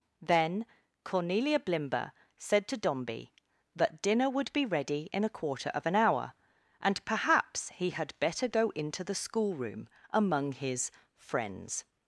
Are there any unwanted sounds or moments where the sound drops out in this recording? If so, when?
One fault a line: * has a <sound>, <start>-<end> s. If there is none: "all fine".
all fine